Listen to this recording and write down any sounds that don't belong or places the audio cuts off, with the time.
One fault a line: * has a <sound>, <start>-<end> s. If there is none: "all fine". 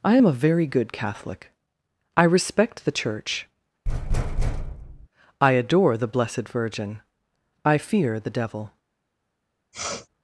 * has a thud, 3.9-5.1 s
* has a sniff, 9.7-10.1 s